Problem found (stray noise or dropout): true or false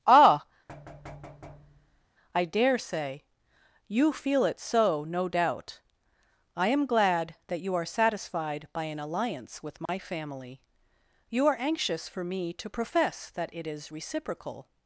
true